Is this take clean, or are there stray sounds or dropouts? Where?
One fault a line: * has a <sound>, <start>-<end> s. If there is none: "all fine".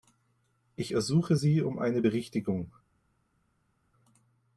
all fine